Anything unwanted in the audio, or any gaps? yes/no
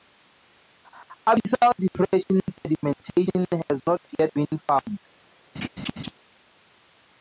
yes